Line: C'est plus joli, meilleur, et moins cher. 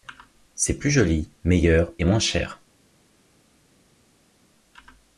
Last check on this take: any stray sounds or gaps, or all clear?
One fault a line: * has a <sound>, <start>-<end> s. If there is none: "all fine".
all fine